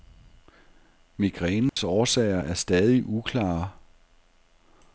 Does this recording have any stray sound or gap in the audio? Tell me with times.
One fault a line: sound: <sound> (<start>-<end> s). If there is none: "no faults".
sound: dropout (1.7-1.8 s)